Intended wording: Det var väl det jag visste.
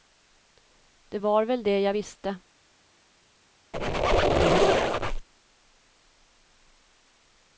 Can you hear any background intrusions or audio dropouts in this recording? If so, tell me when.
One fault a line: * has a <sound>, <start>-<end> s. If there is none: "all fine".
* has a squeak, 3.7-5.3 s